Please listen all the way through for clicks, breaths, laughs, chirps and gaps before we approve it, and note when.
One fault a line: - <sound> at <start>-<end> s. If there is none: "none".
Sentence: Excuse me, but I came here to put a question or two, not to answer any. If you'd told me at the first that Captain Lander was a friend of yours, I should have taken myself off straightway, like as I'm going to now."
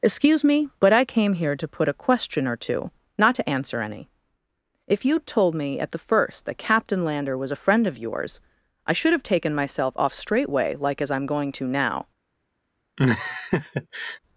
- laugh at 13.0-14.2 s